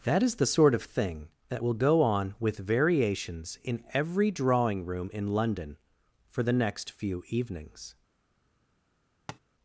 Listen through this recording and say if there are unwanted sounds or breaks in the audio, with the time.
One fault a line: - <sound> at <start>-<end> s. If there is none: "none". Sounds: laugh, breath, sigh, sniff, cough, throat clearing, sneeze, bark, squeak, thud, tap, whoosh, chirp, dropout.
- tap at 9.3-9.4 s